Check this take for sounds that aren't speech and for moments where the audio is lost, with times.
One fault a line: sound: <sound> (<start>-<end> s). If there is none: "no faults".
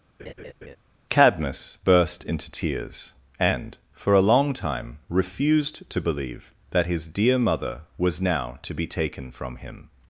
sound: laugh (0.2-0.8 s)